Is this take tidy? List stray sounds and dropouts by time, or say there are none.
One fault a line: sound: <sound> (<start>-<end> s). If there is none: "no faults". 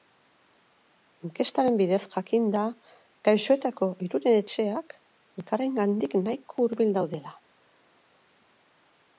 no faults